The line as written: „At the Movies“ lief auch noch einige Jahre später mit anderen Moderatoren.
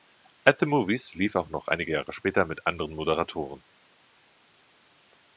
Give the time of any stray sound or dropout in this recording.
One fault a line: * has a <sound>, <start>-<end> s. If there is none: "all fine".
all fine